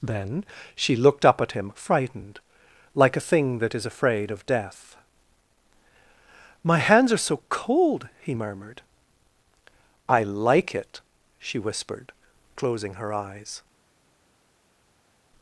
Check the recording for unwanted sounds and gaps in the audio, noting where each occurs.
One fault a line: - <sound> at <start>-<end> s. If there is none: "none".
none